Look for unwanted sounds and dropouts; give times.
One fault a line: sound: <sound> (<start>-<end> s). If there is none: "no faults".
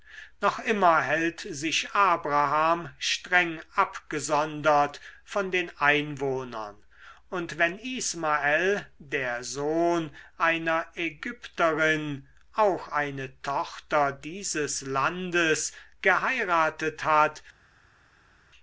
no faults